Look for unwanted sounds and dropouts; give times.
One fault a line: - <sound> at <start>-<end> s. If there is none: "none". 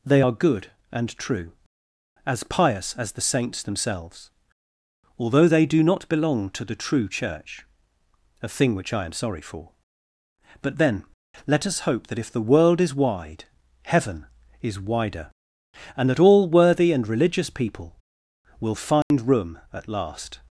- dropout at 19.0-19.1 s